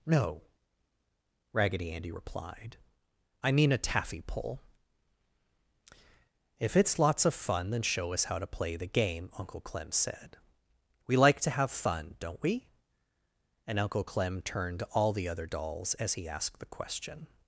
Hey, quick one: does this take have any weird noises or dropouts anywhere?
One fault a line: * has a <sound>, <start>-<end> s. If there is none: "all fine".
all fine